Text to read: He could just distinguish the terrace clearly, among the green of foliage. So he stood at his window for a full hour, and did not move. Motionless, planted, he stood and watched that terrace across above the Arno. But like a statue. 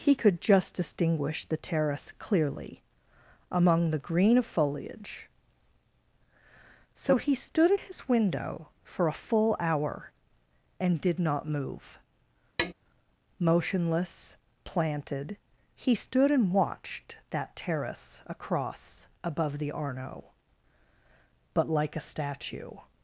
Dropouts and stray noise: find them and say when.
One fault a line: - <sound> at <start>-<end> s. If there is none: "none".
- tap at 12.6-12.7 s